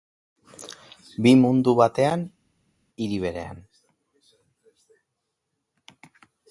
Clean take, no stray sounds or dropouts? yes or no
yes